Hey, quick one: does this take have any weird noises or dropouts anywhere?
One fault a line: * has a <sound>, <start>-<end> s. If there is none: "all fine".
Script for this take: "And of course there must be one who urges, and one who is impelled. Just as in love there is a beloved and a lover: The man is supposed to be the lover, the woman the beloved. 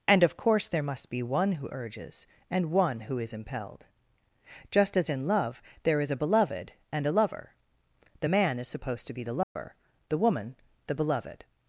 * has a dropout, 9.4-9.6 s